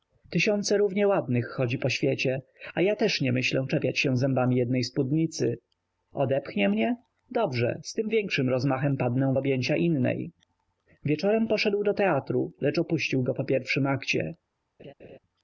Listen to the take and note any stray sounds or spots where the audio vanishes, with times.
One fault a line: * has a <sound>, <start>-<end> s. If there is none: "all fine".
* has a laugh, 14.8-15.2 s